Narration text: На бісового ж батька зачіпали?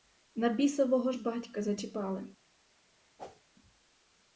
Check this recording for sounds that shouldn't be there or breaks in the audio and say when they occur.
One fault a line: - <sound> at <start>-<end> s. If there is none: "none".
- whoosh at 3.2-3.4 s